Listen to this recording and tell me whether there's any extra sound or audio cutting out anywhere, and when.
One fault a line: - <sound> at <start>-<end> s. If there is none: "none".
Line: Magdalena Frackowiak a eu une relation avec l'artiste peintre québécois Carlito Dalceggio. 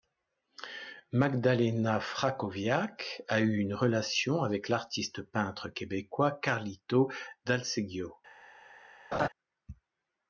- laugh at 9.1-9.3 s